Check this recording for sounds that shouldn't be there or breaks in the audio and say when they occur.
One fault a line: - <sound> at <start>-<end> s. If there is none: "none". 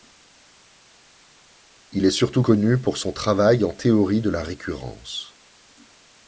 none